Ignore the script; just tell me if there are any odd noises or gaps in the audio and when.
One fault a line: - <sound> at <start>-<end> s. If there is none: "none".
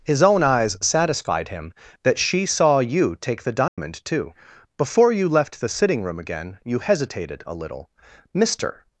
- dropout at 3.7-3.8 s